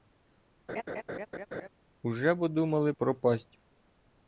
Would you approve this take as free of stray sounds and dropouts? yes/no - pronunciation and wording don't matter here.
no